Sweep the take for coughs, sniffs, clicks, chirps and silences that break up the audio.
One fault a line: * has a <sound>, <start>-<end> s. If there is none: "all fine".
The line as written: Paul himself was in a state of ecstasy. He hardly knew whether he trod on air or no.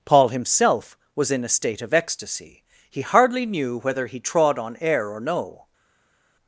all fine